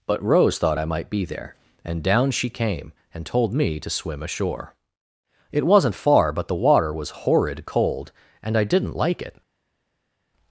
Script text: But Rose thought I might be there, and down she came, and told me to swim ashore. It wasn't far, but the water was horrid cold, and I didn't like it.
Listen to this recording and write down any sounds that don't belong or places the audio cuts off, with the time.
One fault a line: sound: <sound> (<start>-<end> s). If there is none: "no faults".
no faults